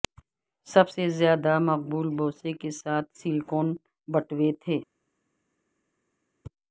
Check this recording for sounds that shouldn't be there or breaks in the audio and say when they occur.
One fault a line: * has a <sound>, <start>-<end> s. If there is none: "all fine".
all fine